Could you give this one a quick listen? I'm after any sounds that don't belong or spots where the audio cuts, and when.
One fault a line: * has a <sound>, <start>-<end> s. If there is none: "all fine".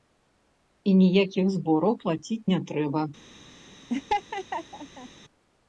* has a laugh, 3.9-5.1 s